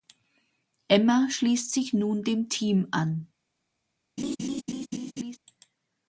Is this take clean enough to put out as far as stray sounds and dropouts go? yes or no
no